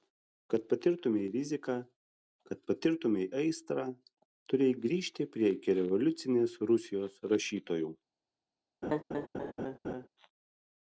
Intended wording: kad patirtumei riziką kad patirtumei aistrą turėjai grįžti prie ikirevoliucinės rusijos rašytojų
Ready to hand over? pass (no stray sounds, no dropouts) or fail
fail